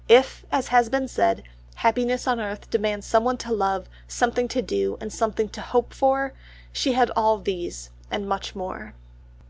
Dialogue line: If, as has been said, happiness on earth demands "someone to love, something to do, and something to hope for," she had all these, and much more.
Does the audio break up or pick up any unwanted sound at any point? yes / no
no